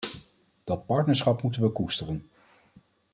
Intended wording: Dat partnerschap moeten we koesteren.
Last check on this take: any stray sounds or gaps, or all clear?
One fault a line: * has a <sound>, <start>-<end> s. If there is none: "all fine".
all fine